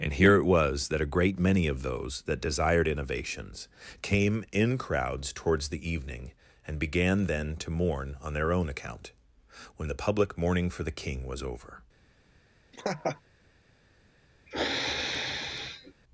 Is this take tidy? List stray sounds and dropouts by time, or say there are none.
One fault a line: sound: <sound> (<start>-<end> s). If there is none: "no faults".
sound: laugh (12.7-13.2 s)
sound: sniff (14.5-15.9 s)